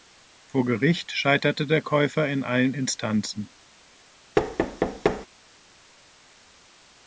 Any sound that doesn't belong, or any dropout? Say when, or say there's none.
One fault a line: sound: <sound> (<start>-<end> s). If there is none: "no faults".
sound: thud (4.4-5.3 s)